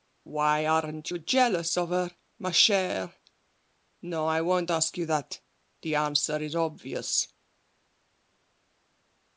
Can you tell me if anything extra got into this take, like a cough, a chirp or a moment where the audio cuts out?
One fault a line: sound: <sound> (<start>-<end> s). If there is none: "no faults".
no faults